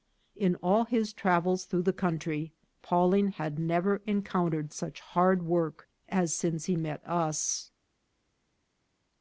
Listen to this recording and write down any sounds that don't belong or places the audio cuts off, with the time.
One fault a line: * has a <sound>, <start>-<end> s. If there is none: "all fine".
all fine